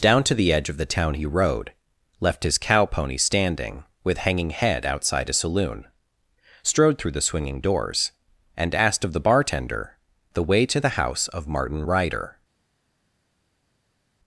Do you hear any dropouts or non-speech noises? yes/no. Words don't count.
no